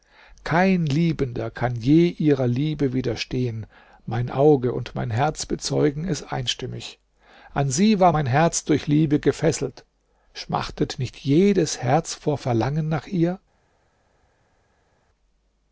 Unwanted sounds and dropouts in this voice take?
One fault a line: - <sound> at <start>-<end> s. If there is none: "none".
none